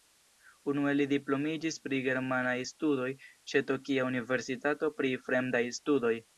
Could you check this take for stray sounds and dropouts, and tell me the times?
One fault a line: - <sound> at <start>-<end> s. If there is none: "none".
none